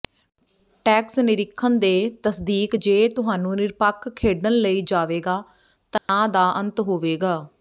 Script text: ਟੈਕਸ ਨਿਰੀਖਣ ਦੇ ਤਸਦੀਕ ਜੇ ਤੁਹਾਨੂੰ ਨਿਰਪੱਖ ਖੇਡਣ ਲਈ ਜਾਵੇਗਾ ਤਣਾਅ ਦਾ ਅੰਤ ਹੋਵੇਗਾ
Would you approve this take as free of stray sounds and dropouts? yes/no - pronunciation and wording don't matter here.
no